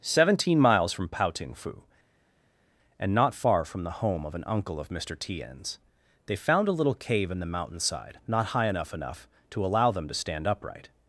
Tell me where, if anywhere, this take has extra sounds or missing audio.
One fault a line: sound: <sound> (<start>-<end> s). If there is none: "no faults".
no faults